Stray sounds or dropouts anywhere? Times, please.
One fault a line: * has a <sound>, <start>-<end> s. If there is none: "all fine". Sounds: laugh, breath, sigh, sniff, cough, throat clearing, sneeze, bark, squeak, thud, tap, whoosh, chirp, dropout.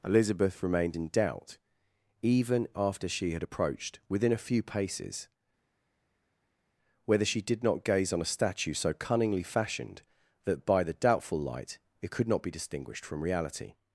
all fine